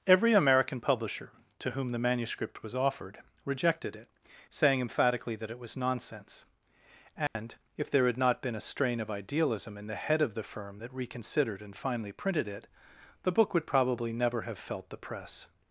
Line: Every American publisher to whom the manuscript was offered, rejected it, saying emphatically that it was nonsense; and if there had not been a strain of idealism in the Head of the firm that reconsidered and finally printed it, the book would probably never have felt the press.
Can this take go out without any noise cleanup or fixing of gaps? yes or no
no